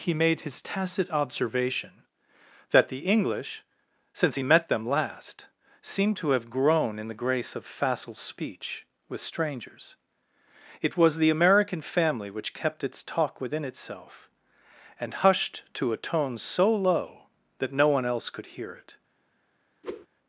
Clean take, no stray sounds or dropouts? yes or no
no